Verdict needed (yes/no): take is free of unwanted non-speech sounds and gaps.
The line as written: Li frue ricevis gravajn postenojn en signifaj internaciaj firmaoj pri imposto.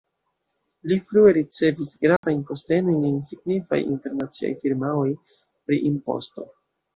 no